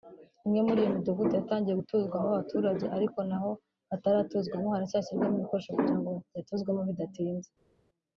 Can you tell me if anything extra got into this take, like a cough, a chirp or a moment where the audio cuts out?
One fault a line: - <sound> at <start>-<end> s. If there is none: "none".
none